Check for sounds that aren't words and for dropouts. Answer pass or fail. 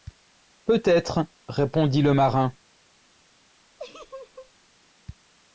fail